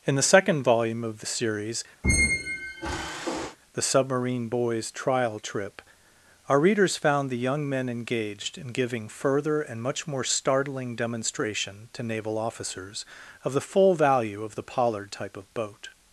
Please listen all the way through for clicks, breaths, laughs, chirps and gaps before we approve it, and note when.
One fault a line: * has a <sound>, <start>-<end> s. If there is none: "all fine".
* has a squeak, 2.0-3.6 s